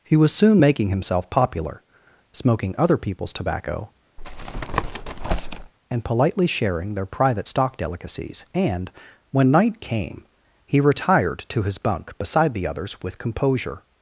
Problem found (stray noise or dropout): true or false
true